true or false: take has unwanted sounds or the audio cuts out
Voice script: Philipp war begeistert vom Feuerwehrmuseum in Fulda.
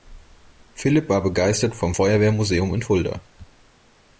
false